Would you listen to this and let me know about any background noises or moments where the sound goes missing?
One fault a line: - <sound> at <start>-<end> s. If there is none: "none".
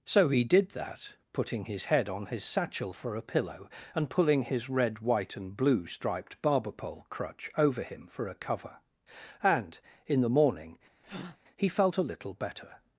- breath at 11.0-11.4 s